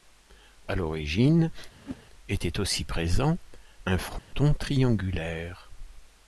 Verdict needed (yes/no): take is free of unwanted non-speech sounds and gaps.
no